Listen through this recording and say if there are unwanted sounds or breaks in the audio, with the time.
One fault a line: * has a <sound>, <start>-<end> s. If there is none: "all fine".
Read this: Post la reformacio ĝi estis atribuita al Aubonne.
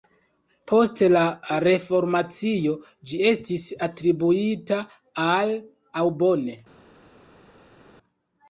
all fine